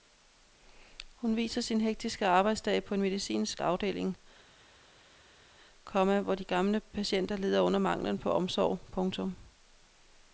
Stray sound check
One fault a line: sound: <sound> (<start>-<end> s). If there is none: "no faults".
no faults